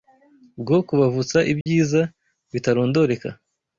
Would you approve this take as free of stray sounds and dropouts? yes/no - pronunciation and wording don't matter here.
no